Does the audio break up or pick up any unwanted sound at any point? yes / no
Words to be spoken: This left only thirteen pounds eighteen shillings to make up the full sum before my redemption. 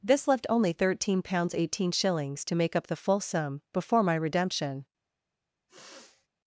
yes